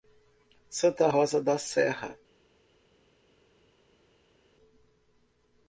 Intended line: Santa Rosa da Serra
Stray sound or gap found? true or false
false